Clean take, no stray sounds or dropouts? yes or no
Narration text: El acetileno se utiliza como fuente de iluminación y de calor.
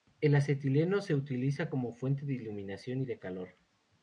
yes